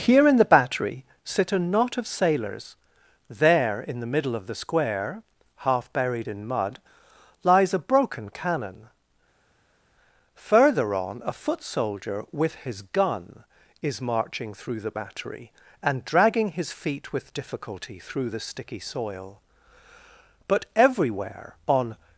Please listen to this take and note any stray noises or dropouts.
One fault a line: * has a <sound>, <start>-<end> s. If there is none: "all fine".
all fine